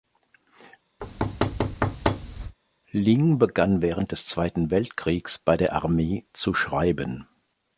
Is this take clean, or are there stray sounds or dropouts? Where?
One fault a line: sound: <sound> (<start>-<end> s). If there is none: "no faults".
sound: thud (1.0-2.6 s)